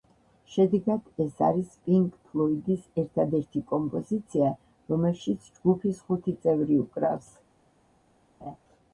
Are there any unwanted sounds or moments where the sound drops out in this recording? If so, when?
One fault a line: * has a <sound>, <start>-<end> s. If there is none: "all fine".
* has a laugh, 8.4-8.6 s